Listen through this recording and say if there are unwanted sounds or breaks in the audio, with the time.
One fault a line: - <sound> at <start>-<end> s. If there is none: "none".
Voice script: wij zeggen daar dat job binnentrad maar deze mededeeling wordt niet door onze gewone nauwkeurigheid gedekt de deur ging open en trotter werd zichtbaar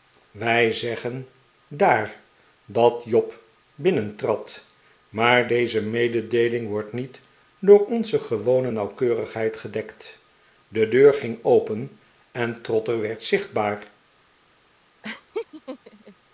- laugh at 15.0-16.1 s